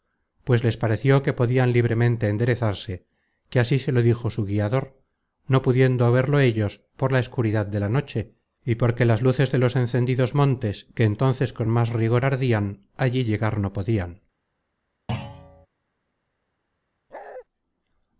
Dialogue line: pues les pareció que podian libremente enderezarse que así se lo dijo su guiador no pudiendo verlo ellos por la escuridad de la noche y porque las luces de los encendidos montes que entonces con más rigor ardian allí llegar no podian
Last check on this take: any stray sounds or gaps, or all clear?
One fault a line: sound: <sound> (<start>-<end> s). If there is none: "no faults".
sound: thud (15.1-15.7 s)
sound: bark (17.1-17.4 s)